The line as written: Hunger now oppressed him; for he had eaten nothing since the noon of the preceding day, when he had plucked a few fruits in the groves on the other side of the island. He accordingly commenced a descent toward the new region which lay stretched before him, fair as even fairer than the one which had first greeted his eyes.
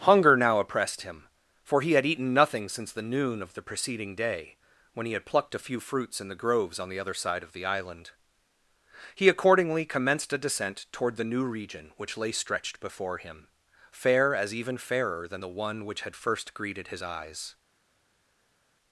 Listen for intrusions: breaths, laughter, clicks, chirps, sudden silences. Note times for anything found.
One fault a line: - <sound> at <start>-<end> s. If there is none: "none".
none